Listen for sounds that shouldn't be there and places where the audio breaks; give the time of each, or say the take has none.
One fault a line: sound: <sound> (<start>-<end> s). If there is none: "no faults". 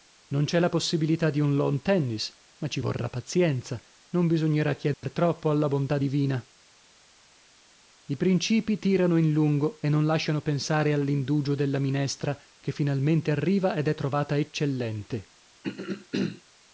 sound: dropout (4.9-5.0 s)
sound: throat clearing (15.6-16.4 s)